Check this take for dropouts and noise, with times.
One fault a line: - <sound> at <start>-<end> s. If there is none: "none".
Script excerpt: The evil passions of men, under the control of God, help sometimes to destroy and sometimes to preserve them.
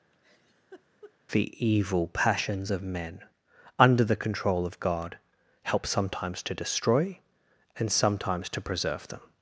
- laugh at 0.1-1.1 s